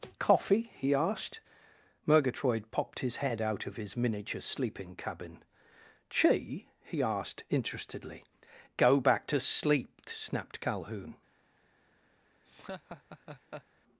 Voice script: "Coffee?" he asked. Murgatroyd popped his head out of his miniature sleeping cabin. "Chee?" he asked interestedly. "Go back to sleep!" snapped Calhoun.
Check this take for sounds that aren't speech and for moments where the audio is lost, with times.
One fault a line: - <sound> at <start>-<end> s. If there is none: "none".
- laugh at 12.4-13.6 s